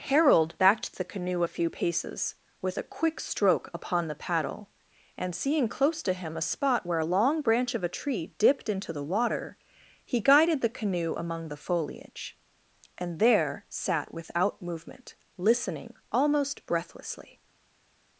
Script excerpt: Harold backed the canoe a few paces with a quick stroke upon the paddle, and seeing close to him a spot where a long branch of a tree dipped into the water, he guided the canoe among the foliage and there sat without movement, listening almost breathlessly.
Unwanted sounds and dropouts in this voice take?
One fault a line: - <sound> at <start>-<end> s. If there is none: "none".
none